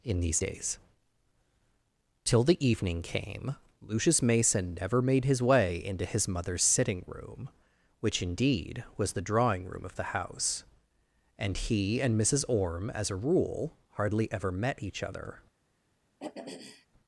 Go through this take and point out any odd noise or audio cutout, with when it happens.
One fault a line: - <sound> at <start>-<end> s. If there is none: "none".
- throat clearing at 16.2-16.9 s